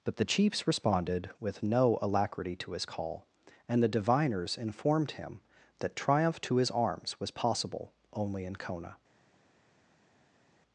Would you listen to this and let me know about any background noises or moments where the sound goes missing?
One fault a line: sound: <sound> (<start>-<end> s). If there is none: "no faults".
no faults